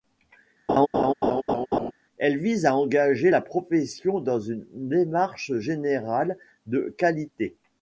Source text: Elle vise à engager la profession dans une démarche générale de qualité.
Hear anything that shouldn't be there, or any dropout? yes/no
yes